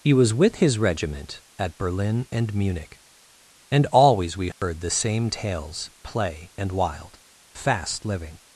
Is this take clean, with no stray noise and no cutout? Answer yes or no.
no